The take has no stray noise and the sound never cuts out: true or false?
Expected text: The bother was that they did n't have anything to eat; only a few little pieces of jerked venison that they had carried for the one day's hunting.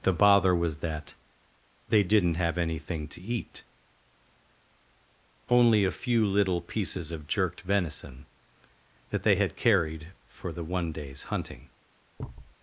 false